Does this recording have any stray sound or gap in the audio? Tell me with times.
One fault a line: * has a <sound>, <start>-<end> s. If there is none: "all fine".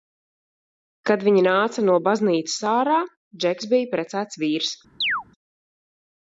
* has a chirp, 5.0-5.2 s